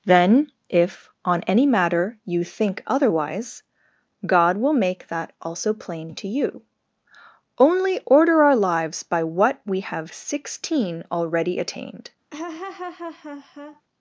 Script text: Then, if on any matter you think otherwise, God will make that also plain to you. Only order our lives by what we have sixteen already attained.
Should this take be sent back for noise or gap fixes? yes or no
yes